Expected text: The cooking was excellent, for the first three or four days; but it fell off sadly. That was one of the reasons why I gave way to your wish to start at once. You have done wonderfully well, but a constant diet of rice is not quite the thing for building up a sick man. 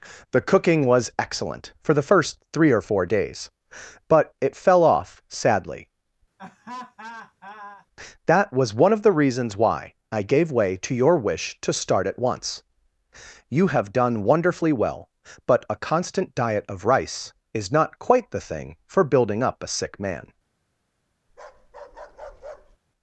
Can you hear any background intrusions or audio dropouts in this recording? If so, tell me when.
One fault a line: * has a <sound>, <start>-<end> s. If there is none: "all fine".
* has a laugh, 6.4-7.9 s
* has a bark, 21.3-22.8 s